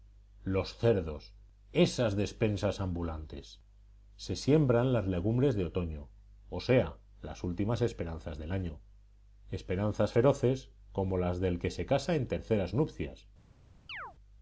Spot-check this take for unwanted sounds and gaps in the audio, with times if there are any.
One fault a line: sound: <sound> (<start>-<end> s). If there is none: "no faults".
sound: chirp (13.9-14.1 s)